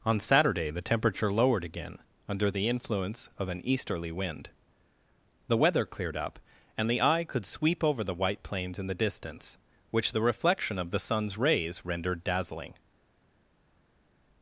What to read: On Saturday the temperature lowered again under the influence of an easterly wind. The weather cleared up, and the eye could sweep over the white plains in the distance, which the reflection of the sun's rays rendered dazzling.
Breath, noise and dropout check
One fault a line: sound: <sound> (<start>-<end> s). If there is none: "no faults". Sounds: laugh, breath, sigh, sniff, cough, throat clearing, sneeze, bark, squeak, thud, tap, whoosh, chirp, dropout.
no faults